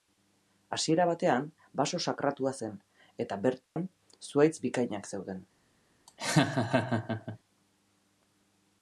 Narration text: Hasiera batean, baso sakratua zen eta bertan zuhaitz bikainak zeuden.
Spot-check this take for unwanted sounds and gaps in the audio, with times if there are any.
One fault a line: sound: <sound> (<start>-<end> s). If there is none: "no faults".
sound: dropout (3.6-3.8 s)
sound: laugh (6.1-7.4 s)